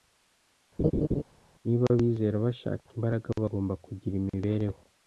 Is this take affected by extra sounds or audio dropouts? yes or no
yes